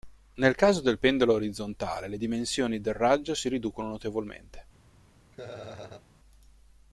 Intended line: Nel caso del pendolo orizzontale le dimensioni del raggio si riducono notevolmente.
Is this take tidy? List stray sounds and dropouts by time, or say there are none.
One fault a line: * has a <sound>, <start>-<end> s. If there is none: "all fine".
* has a laugh, 5.3-6.1 s